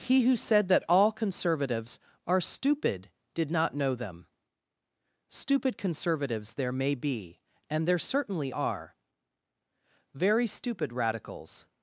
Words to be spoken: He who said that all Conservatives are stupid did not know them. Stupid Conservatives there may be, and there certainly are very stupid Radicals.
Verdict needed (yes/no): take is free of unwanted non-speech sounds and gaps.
yes